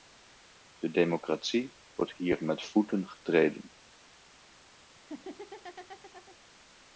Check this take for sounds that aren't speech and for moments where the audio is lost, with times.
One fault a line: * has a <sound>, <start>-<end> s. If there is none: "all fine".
* has a laugh, 4.9-6.4 s